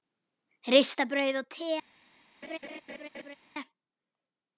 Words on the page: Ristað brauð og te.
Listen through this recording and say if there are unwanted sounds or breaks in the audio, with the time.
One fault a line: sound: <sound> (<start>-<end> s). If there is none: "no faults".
sound: laugh (2.4-3.4 s)